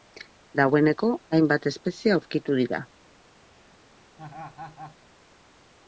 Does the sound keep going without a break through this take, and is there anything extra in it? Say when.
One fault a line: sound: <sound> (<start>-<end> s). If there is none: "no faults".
sound: laugh (4.2-5.0 s)